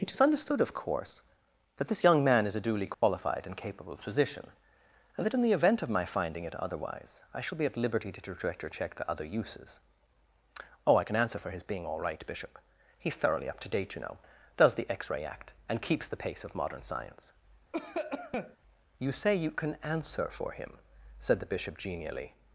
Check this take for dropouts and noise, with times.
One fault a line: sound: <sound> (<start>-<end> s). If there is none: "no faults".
sound: dropout (2.9-3.0 s)
sound: cough (17.7-18.6 s)